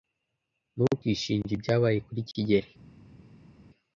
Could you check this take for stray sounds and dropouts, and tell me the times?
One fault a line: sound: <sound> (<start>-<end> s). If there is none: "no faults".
no faults